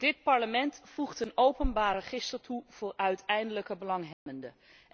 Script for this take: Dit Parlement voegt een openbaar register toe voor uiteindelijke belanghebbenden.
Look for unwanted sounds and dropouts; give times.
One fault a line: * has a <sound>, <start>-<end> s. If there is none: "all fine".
* has a dropout, 4.1-4.3 s